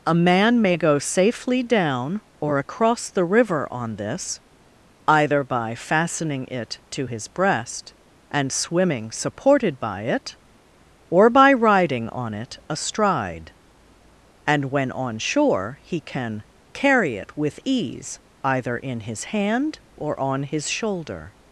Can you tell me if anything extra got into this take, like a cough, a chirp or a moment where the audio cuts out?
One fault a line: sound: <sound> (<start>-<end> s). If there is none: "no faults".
no faults